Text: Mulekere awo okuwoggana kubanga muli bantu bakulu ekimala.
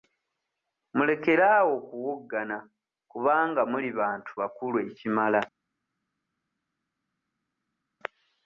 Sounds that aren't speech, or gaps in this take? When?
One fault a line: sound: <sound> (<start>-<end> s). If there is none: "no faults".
no faults